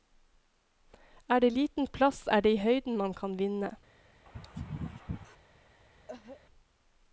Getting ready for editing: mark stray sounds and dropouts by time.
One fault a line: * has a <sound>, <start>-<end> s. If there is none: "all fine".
* has a sneeze, 4.3-5.4 s
* has a cough, 6.1-6.4 s